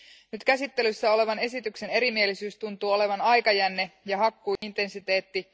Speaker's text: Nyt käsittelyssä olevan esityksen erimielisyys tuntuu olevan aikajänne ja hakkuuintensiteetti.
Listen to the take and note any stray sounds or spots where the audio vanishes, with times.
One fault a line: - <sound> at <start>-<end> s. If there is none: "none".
- dropout at 4.6-4.6 s